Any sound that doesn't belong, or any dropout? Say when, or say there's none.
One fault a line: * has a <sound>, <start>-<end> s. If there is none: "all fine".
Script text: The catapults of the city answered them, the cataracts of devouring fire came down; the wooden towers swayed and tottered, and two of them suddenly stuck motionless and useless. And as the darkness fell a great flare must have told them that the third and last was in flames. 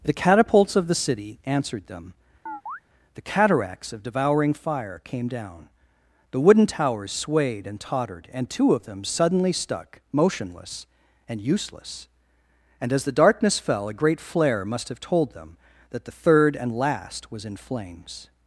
* has a chirp, 2.5-2.8 s